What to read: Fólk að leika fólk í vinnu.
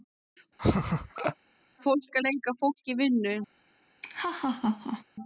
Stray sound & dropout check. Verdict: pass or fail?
fail